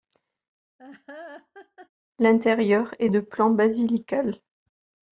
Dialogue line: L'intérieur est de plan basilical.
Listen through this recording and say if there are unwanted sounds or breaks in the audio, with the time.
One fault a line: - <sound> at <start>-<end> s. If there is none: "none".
- laugh at 0.8-1.9 s